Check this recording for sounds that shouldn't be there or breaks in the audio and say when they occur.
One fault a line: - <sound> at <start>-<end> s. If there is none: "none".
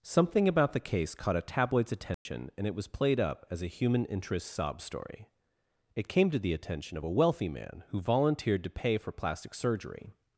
- dropout at 2.1-2.3 s